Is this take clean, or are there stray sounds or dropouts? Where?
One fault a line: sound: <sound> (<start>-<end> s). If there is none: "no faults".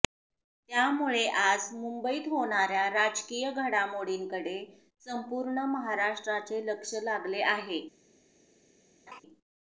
sound: laugh (9.1-9.2 s)